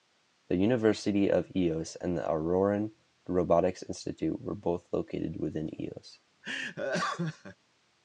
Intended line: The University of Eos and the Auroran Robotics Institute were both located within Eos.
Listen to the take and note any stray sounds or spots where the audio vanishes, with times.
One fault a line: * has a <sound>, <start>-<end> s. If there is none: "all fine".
* has a laugh, 6.4-7.6 s